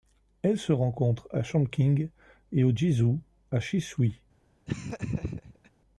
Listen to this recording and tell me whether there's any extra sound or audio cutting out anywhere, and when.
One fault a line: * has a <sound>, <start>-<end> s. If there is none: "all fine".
* has a laugh, 4.7-5.7 s